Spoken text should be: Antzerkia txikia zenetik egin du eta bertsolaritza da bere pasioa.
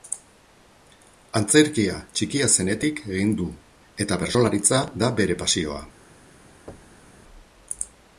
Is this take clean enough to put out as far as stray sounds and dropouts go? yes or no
no